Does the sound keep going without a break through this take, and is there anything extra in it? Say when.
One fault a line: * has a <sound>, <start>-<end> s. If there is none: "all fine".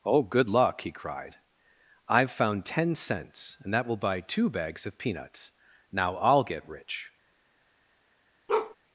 * has a bark, 8.5-8.8 s